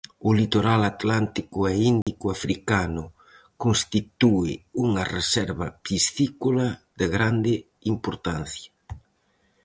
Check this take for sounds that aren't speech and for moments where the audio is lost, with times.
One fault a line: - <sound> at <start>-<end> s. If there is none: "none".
- dropout at 2.0-2.1 s